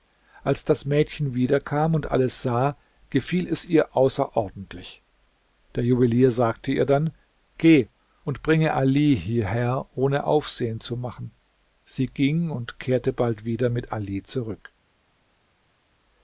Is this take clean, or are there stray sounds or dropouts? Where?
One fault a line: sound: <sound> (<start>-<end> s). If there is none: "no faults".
no faults